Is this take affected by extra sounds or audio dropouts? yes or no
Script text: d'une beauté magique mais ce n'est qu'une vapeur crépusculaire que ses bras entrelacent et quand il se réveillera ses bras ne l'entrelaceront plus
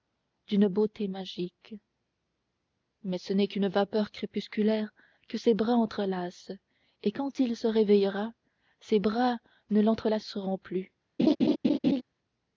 yes